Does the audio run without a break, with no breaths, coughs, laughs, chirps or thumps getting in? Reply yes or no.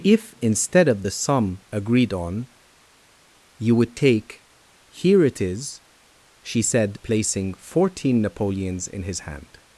yes